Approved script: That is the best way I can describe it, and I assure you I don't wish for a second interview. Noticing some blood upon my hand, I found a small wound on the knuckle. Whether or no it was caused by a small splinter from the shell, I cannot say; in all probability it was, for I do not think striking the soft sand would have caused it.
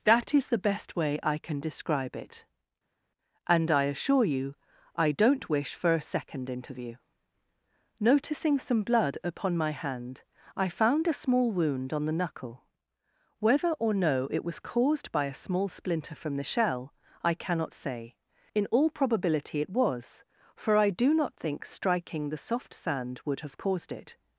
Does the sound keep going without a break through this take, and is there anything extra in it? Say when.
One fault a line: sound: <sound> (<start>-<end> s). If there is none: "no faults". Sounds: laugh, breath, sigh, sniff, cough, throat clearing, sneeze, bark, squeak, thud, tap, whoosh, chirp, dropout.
no faults